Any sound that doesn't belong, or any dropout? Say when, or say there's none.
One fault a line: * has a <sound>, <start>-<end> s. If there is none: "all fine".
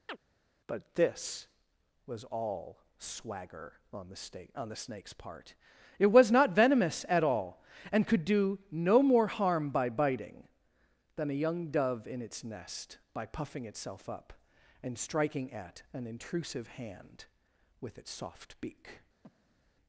* has a chirp, 0.1-0.2 s
* has a breath, 19.2-19.7 s